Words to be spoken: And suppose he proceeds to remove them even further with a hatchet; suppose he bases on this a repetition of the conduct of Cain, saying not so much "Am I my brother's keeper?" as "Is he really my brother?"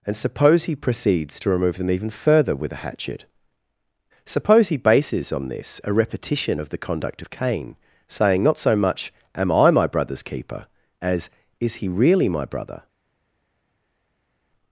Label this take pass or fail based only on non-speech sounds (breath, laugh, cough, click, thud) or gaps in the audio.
pass